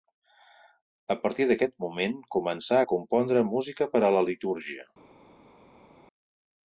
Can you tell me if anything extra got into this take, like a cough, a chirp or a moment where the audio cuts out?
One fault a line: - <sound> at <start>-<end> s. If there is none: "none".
none